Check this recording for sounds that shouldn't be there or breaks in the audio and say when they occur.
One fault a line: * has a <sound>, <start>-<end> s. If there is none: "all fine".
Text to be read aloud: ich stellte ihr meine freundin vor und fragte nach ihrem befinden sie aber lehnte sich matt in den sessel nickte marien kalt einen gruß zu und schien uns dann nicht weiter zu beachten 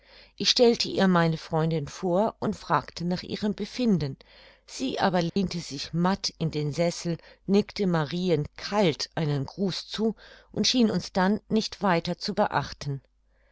* has a dropout, 5.3-5.4 s